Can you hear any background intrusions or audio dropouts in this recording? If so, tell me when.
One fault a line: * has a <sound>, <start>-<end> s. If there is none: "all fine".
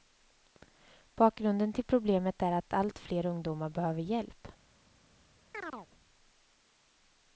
* has a chirp, 5.5-5.9 s